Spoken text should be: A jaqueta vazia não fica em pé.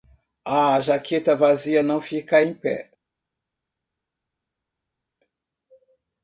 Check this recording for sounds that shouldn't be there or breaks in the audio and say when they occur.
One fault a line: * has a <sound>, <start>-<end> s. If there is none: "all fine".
all fine